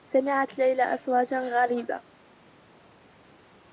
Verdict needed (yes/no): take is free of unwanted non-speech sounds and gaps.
yes